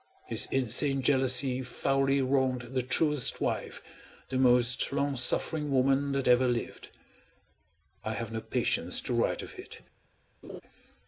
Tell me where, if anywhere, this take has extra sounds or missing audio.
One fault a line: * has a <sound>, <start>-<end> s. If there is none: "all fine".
* has a laugh, 10.4-10.6 s